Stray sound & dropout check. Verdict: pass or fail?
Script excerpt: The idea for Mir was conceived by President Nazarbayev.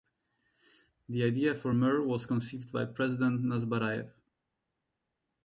pass